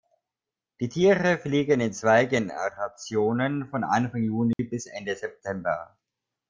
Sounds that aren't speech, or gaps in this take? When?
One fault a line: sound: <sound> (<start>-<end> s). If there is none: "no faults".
sound: dropout (4.5-4.6 s)